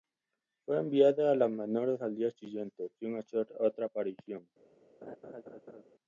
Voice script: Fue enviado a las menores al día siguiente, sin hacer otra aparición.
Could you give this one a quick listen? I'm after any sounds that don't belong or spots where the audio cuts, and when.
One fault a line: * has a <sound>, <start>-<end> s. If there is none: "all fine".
* has a laugh, 5.0-5.8 s